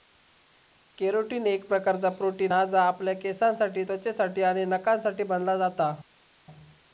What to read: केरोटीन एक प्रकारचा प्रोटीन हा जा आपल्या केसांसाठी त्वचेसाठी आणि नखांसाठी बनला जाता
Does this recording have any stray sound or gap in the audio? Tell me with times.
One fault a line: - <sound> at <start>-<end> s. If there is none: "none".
none